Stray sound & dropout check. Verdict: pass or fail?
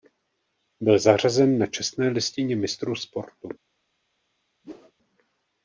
fail